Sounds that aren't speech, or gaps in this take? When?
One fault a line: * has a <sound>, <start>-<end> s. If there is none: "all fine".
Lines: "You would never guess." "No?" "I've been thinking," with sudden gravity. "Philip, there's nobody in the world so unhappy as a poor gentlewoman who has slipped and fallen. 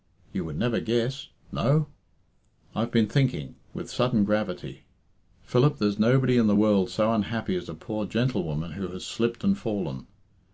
all fine